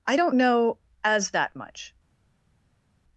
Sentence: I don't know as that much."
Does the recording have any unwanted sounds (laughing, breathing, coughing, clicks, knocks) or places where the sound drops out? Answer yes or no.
no